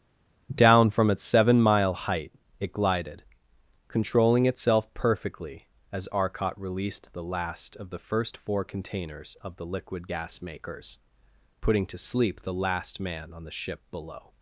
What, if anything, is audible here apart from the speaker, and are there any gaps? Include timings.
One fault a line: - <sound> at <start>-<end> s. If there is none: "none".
none